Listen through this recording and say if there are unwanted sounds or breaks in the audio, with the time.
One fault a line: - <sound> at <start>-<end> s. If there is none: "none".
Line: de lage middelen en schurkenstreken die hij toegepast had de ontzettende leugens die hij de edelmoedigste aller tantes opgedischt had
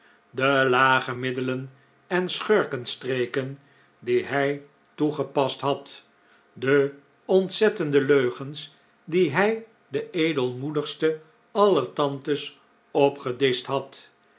none